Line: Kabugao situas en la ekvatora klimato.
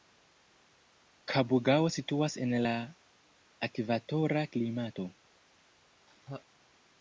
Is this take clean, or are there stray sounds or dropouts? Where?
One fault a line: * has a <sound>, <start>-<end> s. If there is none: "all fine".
* has a laugh, 6.1-6.5 s